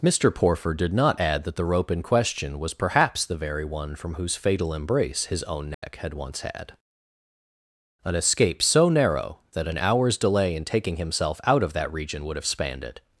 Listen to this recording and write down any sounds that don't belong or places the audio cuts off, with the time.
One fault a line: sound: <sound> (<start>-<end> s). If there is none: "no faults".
sound: dropout (5.7-5.8 s)